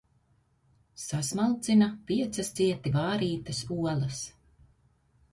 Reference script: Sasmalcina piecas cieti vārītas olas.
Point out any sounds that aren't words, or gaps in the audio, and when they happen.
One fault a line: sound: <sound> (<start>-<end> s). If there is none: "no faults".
no faults